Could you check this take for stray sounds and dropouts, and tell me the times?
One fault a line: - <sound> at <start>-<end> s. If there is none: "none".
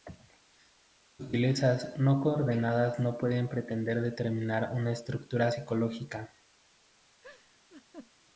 - laugh at 7.2-8.1 s